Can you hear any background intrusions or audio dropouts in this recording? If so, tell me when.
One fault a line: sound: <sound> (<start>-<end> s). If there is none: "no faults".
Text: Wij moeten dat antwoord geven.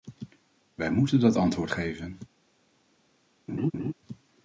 sound: laugh (3.5-3.9 s)